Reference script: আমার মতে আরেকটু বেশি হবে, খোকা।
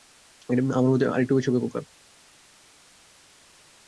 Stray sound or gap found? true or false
false